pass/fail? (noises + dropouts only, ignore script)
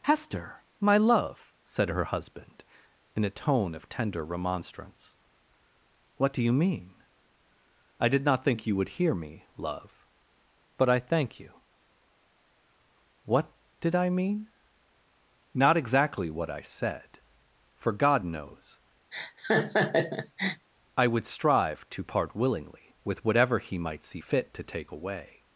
fail